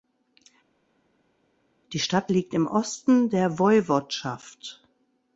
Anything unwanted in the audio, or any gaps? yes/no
no